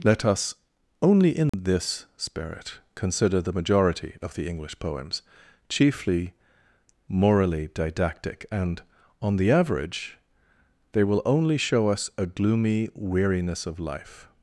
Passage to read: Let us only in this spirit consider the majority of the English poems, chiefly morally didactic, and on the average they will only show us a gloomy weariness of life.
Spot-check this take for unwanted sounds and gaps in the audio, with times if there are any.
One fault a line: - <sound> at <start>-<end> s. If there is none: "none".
- dropout at 1.5-1.5 s